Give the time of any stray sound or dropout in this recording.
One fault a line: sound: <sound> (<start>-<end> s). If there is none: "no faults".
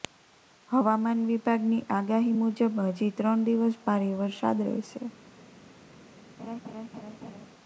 sound: laugh (6.4-7.5 s)